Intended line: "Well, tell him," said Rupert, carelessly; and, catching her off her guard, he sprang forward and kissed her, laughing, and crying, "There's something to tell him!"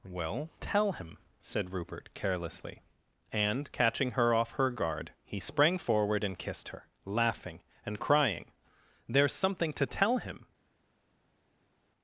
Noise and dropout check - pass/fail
pass